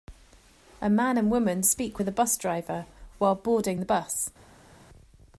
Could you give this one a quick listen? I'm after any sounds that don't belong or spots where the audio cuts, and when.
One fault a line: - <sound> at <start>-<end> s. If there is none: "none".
none